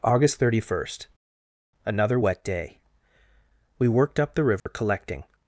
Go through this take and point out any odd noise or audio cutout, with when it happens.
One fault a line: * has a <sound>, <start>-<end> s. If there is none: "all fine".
* has a dropout, 4.6-4.7 s